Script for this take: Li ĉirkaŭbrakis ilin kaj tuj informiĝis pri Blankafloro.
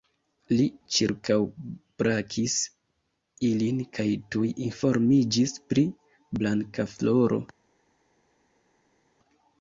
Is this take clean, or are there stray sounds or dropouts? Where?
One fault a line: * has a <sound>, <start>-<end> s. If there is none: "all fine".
all fine